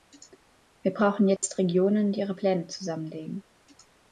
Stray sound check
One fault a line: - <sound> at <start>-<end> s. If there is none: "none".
- dropout at 1.4-1.4 s